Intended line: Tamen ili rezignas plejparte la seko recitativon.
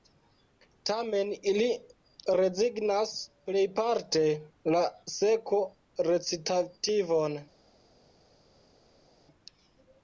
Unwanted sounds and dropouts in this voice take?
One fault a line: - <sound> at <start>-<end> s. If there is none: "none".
none